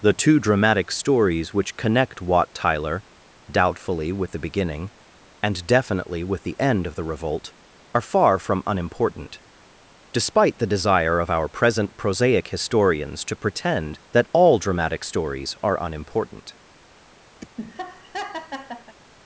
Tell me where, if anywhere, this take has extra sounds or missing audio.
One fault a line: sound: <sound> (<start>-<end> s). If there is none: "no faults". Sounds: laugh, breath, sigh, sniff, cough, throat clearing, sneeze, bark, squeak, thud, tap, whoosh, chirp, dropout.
sound: laugh (17.4-19.0 s)